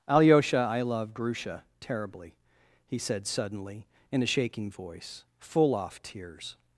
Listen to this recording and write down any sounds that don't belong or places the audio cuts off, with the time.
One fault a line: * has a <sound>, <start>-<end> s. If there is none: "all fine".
all fine